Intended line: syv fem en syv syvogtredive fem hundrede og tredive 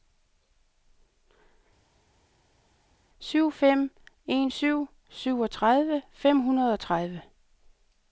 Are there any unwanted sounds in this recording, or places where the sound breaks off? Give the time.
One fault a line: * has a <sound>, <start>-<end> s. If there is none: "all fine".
all fine